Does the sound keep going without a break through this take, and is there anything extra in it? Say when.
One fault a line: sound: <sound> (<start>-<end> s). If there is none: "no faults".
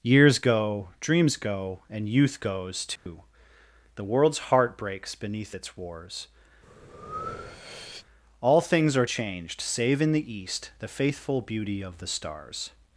sound: dropout (3.0-3.1 s)
sound: breath (6.6-8.1 s)